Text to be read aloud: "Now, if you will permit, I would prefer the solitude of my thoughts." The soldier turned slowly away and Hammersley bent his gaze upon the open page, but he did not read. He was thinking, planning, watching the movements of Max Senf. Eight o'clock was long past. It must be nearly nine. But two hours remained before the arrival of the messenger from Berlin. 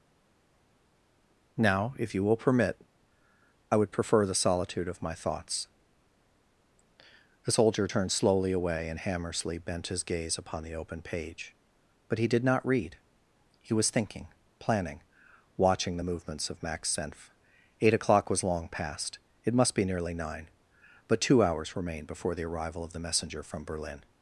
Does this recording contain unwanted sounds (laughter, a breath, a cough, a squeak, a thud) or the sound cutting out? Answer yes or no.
no